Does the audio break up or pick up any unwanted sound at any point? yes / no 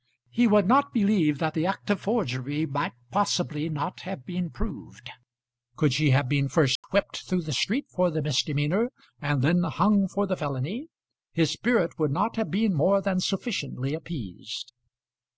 yes